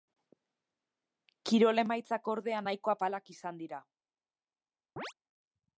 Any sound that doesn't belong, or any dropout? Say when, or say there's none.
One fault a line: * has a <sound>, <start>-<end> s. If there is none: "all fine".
* has a chirp, 5.0-5.1 s